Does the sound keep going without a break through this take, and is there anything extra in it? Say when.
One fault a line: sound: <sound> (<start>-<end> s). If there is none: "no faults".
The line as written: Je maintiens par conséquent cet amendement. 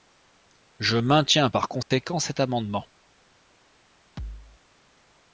sound: dropout (1.8-1.9 s)
sound: thud (4.2-4.6 s)